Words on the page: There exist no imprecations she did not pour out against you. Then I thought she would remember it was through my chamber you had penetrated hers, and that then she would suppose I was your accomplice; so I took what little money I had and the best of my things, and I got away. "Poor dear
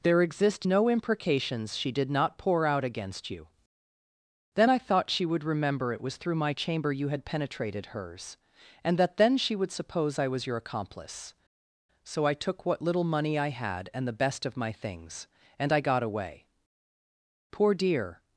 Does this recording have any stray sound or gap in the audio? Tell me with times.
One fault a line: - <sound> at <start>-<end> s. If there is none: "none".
none